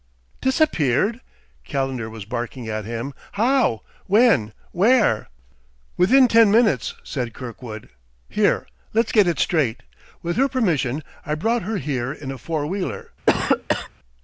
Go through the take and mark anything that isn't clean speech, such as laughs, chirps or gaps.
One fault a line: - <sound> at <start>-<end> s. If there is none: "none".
- cough at 13.3-13.9 s